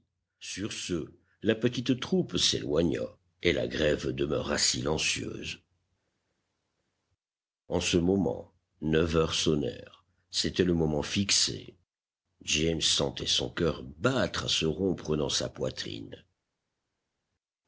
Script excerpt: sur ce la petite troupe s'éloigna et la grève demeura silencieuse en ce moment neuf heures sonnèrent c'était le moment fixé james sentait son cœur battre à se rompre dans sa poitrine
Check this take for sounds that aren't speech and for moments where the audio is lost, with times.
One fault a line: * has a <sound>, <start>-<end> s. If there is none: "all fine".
all fine